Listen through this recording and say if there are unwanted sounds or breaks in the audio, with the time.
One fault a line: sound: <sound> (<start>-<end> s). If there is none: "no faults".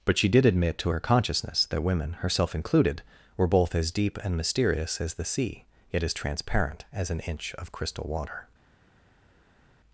no faults